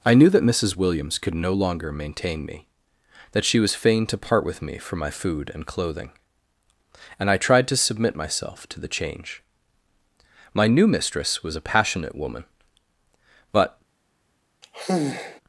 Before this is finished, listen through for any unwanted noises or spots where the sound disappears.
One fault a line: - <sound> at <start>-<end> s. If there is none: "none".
- sigh at 14.6-15.4 s